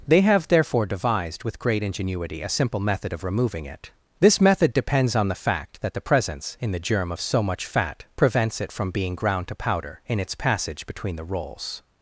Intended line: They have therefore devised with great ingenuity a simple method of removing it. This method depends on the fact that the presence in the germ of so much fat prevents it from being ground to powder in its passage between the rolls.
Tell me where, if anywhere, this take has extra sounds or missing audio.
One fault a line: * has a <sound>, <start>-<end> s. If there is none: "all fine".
all fine